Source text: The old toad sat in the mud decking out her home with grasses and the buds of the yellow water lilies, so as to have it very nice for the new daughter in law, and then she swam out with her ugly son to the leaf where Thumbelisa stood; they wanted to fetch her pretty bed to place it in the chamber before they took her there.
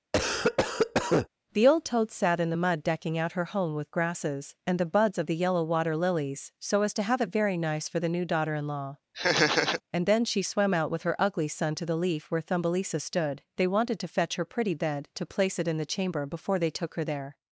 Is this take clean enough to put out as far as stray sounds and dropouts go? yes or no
no